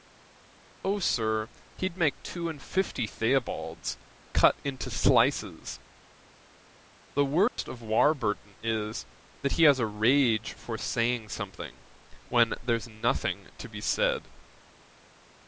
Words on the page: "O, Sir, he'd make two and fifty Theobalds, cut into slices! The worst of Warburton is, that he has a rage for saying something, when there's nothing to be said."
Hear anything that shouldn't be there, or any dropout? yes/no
yes